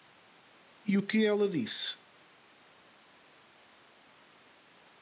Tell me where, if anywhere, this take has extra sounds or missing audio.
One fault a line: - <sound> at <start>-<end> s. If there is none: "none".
none